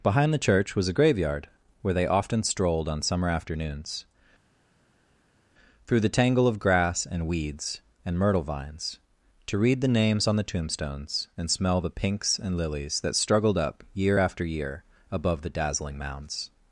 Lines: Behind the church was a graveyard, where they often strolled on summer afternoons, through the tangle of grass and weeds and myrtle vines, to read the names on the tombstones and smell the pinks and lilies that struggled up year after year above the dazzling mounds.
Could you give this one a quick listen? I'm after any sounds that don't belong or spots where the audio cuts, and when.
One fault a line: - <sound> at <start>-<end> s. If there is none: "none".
none